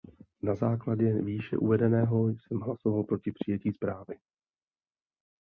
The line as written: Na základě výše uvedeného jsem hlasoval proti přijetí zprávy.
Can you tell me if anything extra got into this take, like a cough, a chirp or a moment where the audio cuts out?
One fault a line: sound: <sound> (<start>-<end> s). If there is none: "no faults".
no faults